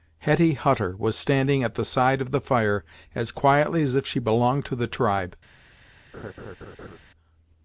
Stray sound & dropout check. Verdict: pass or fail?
fail